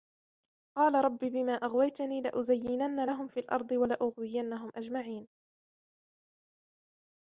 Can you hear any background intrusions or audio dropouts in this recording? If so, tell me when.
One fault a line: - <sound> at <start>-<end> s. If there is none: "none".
none